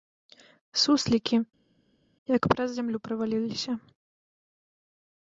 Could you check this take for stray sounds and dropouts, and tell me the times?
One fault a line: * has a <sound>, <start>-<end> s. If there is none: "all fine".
all fine